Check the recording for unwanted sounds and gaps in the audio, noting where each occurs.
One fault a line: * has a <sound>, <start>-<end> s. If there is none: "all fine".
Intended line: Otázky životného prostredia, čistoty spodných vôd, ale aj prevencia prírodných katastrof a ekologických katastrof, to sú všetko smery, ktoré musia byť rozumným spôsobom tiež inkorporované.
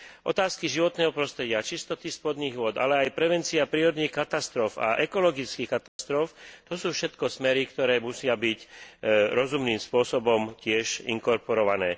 * has a dropout, 5.9-6.0 s